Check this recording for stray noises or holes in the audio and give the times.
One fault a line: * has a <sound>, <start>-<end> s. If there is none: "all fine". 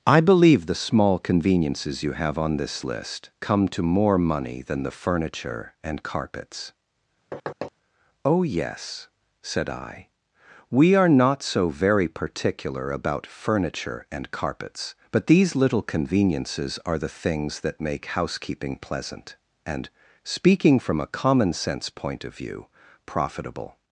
* has a thud, 7.3-7.7 s